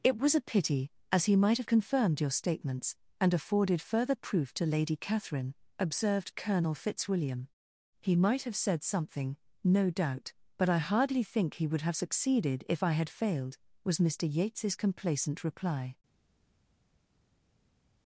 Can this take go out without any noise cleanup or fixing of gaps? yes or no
yes